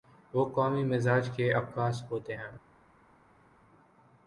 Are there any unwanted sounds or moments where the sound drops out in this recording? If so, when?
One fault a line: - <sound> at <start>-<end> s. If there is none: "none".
none